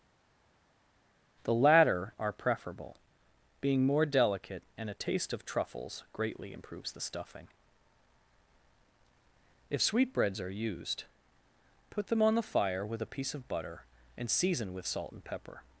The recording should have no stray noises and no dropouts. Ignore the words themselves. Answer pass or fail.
pass